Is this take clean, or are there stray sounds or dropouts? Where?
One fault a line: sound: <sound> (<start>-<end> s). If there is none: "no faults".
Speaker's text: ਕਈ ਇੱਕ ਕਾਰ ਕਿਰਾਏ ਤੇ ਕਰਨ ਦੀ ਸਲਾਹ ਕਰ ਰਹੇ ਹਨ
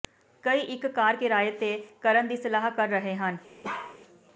sound: bark (3.6-4.0 s)